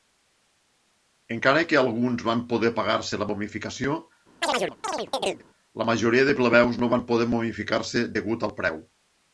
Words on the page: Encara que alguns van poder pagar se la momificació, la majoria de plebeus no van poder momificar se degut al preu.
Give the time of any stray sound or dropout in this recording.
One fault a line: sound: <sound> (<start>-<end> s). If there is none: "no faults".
sound: chirp (4.4-5.4 s)